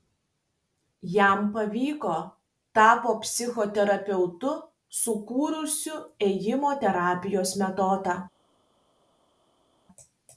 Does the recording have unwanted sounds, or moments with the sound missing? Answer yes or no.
no